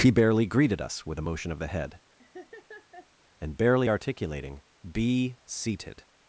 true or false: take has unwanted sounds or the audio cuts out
true